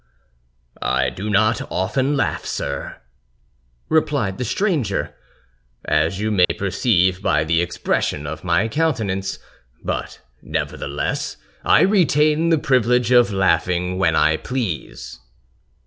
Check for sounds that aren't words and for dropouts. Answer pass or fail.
fail